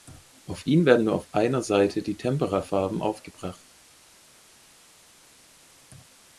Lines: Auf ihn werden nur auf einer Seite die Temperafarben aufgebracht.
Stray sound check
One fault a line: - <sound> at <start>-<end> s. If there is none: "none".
none